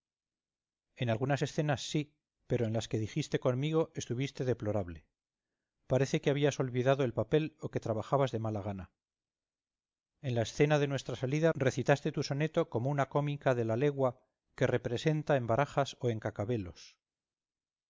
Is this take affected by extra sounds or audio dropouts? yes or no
no